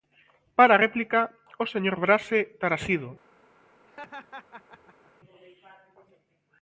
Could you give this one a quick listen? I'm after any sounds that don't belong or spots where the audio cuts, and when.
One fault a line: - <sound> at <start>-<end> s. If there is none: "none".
- laugh at 3.9-5.1 s